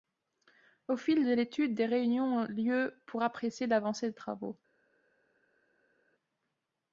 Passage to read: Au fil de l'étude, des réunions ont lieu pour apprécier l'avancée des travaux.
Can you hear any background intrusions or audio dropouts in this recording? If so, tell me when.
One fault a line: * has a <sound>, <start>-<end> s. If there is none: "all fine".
all fine